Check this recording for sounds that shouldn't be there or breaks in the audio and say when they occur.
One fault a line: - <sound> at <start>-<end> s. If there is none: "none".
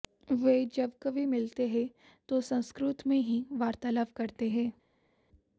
none